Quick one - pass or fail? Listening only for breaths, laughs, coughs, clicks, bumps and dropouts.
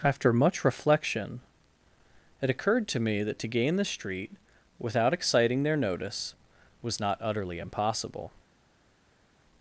pass